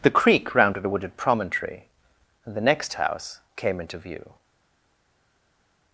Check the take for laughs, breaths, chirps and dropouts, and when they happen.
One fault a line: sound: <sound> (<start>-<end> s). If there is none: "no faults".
no faults